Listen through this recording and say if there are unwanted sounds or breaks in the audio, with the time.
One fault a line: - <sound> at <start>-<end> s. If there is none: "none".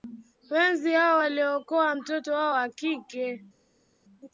none